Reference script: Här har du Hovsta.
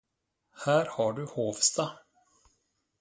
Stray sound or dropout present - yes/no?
no